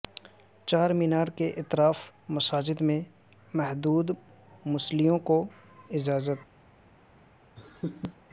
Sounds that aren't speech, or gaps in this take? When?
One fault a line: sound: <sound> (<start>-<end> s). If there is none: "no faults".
sound: laugh (7.6-8.2 s)